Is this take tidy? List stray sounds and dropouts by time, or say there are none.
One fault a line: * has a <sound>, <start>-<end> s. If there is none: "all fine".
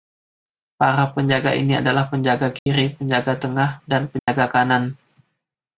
* has a dropout, 2.6-2.7 s
* has a dropout, 4.2-4.3 s